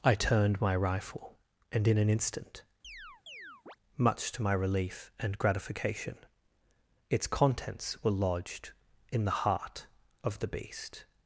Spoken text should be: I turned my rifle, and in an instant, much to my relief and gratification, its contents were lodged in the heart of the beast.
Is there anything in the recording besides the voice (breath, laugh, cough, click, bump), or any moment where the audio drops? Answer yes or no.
yes